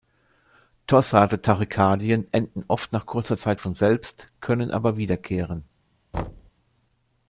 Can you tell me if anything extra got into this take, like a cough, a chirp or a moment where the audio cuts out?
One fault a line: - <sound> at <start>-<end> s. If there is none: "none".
- thud at 6.1-6.5 s